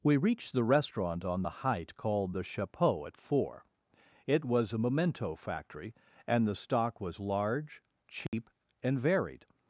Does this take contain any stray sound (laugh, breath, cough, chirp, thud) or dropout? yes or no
yes